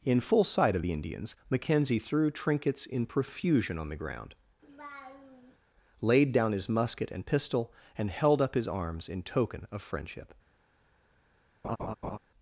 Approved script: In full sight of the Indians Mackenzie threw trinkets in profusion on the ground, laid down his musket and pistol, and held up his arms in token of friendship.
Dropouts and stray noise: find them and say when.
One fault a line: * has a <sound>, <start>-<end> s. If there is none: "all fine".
* has a laugh, 4.6-5.6 s
* has a laugh, 11.6-12.2 s